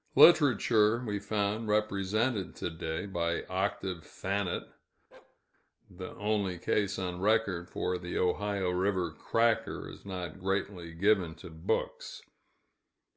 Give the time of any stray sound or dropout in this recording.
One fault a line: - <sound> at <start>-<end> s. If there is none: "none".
- bark at 5.1-5.4 s